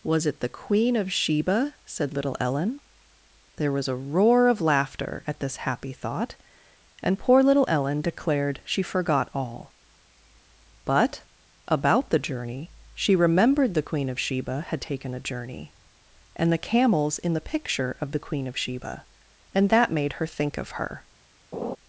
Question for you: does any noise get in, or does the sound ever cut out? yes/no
yes